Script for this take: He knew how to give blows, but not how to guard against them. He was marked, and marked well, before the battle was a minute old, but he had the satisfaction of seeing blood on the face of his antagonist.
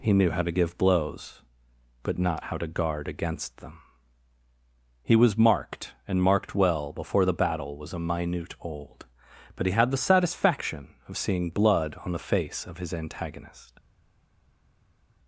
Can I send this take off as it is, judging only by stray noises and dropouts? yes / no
yes